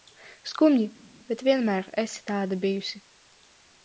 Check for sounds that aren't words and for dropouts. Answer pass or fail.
pass